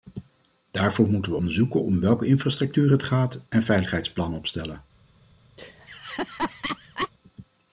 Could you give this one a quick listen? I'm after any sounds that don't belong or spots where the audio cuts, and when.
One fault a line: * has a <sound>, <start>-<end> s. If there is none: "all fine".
* has a laugh, 5.6-7.1 s